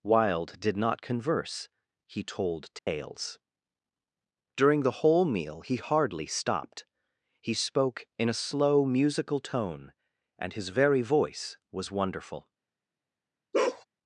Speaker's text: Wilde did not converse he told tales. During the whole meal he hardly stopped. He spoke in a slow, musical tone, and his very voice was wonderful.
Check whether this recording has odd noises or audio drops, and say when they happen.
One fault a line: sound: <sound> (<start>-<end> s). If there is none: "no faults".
sound: dropout (2.8-2.9 s)
sound: bark (13.5-13.8 s)